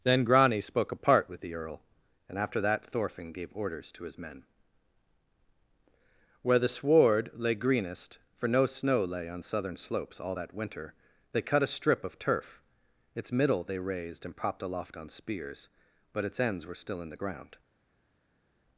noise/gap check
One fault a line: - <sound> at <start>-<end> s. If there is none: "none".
none